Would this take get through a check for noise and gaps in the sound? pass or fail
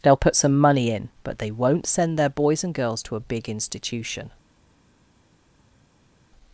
pass